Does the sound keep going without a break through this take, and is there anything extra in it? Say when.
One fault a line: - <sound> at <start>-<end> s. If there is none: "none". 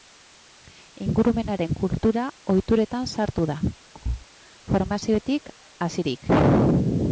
- thud at 3.9-4.3 s